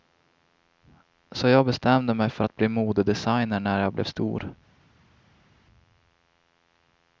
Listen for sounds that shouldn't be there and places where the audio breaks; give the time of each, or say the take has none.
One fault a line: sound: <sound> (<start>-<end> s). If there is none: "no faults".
no faults